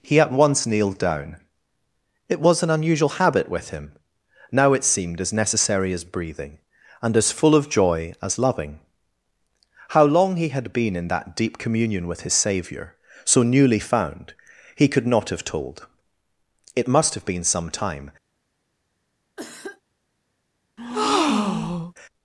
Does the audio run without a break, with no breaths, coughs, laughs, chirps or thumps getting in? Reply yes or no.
no